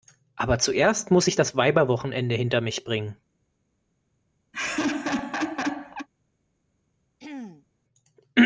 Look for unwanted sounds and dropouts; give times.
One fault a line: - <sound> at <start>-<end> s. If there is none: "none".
- laugh at 4.5-6.1 s
- throat clearing at 7.2-7.7 s